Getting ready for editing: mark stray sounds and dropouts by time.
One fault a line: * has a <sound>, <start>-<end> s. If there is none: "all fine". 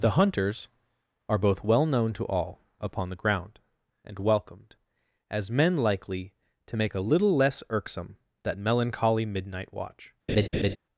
* has a laugh, 10.3-10.8 s